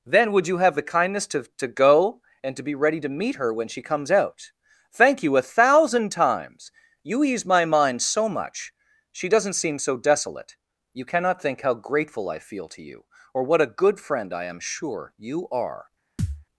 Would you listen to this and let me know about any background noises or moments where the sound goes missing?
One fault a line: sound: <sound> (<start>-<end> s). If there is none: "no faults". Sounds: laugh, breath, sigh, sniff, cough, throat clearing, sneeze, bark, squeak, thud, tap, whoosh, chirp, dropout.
sound: thud (16.2-16.4 s)